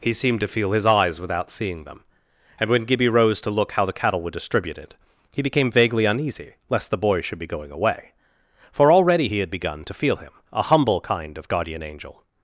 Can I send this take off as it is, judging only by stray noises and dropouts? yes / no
yes